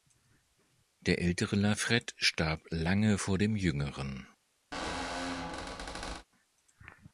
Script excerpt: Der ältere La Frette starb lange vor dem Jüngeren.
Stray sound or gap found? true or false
true